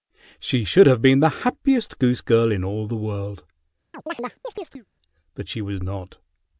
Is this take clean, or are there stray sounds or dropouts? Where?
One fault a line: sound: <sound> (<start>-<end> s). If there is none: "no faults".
sound: chirp (3.9-4.9 s)